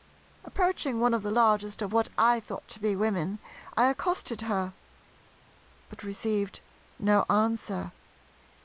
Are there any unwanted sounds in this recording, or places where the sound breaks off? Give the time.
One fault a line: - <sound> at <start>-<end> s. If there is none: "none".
none